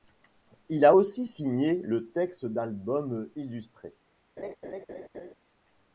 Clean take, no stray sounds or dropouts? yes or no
no